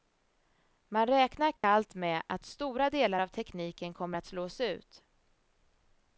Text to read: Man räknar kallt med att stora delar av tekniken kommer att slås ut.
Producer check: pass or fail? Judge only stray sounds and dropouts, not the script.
fail